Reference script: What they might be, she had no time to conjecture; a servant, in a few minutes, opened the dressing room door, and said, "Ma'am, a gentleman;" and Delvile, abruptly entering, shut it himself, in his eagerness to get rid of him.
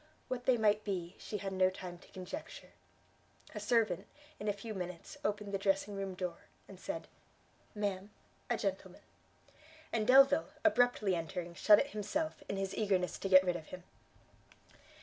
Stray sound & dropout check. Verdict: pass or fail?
pass